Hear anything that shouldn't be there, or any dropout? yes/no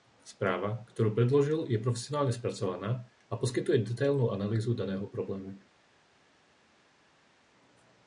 no